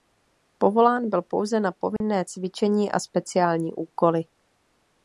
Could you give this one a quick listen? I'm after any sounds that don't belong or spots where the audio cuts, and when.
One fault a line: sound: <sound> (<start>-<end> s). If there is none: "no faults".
sound: dropout (2.0-2.0 s)